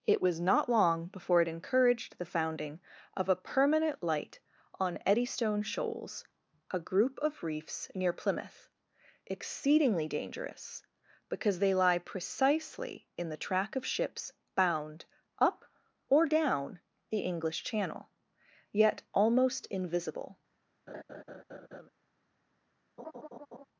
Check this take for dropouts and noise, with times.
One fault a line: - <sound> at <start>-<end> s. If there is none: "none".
- laugh at 20.9-21.9 s
- laugh at 23.0-23.6 s